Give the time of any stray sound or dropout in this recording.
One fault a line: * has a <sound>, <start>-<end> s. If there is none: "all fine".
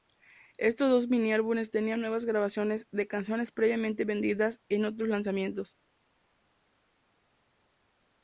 all fine